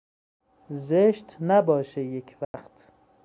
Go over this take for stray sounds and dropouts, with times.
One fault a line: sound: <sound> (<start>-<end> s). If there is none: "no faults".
sound: dropout (2.4-2.5 s)